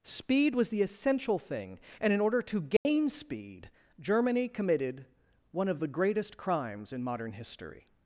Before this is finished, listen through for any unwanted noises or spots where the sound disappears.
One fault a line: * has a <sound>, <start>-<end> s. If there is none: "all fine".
* has a dropout, 2.8-2.9 s